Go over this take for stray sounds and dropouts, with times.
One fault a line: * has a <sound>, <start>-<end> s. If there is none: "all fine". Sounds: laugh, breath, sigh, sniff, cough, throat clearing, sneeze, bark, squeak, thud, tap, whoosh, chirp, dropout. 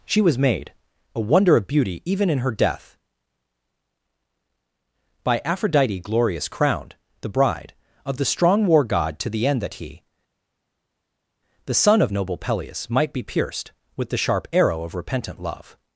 all fine